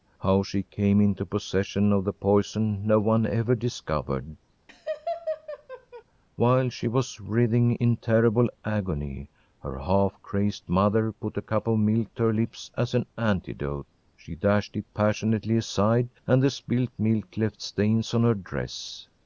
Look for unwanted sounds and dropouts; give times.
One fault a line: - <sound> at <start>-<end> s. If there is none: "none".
- laugh at 4.7-6.0 s